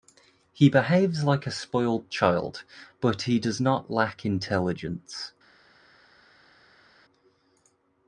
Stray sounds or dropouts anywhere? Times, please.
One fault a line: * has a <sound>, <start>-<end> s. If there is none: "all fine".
all fine